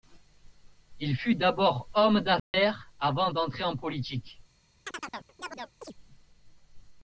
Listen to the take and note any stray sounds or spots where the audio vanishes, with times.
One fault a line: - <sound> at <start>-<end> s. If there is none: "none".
- dropout at 2.4-2.5 s
- chirp at 4.9-5.9 s